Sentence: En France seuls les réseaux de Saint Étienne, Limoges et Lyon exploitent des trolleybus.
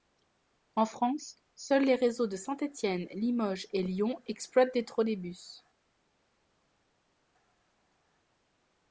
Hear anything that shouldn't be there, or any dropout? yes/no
no